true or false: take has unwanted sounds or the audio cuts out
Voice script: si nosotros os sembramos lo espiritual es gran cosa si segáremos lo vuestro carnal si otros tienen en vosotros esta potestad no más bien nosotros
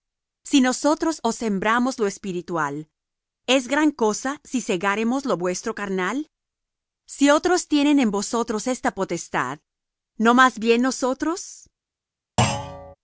true